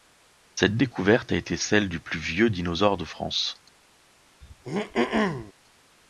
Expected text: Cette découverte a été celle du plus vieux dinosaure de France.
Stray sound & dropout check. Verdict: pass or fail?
fail